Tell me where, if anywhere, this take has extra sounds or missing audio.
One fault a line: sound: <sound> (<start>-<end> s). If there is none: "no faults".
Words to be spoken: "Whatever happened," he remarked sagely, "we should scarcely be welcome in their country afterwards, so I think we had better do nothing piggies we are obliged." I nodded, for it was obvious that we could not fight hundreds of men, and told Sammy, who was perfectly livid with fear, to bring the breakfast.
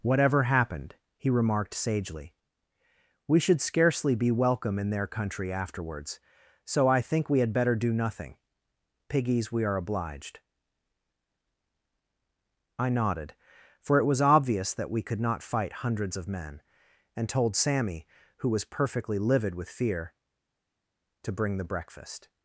no faults